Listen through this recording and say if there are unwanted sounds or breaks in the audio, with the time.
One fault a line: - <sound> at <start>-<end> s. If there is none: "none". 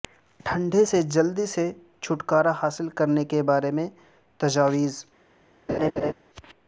- laugh at 5.7-6.1 s